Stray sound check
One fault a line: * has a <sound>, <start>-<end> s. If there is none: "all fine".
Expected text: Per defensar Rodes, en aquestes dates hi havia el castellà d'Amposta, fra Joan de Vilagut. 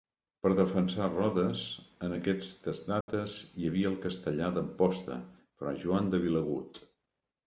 * has a dropout, 3.0-3.1 s